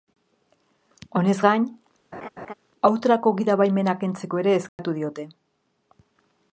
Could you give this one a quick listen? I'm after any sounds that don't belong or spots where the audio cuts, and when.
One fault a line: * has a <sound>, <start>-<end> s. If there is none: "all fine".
* has a laugh, 2.1-2.5 s
* has a dropout, 4.7-4.8 s